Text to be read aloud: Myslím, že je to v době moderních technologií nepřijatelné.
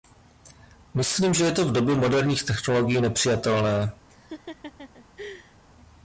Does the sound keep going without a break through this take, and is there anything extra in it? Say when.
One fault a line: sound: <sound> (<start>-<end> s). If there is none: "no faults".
sound: laugh (4.1-5.6 s)